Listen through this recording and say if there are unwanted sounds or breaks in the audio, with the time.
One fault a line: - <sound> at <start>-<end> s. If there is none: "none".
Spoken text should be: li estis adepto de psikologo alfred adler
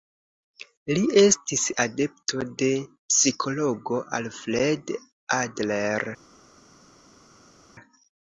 none